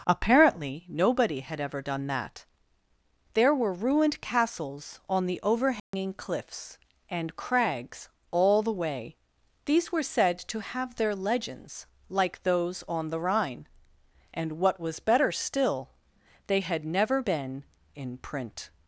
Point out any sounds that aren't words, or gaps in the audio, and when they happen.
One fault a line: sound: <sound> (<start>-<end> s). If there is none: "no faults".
sound: dropout (5.8-5.9 s)